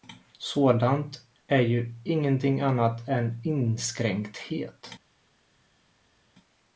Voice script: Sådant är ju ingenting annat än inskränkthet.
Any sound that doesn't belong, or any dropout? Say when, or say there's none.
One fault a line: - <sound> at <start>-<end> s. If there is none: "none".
none